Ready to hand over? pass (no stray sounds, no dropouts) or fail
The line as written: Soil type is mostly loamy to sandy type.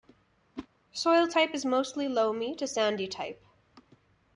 fail